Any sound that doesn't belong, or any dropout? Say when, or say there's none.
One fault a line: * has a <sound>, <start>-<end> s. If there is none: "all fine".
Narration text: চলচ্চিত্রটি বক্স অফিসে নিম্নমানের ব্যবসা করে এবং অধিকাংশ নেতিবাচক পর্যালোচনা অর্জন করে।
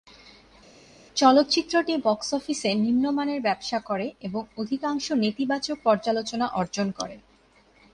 all fine